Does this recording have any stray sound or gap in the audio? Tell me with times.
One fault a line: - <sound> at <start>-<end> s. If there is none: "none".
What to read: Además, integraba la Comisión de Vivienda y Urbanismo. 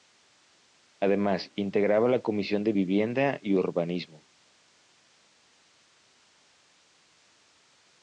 none